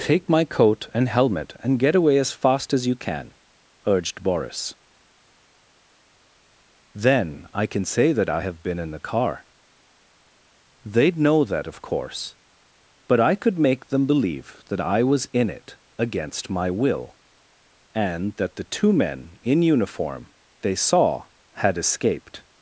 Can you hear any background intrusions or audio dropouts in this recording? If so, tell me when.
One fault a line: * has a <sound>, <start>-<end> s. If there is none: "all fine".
all fine